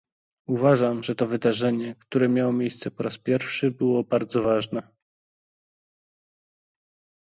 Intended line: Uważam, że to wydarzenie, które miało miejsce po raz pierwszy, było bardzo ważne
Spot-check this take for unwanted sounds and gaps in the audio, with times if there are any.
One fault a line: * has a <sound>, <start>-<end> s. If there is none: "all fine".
all fine